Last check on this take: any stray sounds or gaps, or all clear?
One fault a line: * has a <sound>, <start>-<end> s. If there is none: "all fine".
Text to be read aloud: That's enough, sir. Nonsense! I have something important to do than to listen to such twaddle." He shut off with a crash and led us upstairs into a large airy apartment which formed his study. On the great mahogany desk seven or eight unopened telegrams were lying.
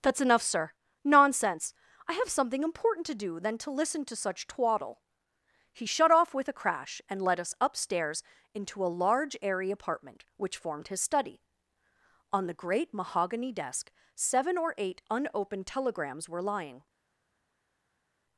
all fine